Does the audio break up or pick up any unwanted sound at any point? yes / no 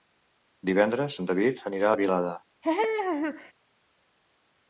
yes